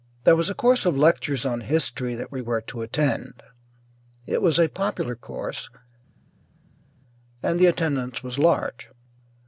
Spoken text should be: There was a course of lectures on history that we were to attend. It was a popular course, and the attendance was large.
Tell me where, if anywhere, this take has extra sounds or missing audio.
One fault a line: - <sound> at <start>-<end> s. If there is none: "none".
none